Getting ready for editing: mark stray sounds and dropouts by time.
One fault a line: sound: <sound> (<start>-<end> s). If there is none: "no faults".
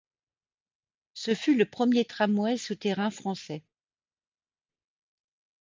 no faults